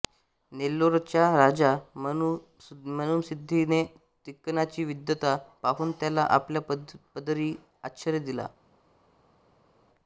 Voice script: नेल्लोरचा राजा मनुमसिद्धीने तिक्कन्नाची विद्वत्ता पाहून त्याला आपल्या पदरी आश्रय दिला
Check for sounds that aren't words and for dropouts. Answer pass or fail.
pass